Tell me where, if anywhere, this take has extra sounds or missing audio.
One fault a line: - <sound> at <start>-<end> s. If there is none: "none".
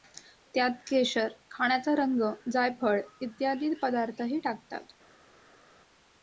none